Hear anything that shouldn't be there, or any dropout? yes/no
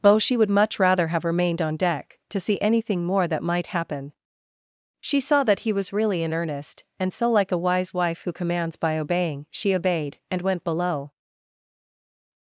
no